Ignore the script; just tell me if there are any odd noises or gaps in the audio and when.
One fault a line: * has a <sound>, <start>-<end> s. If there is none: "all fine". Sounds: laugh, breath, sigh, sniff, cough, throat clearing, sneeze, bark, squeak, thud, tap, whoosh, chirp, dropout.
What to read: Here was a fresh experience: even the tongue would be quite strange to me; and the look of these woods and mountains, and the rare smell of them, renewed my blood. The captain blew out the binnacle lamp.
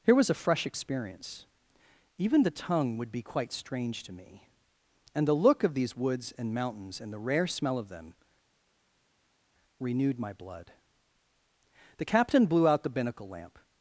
all fine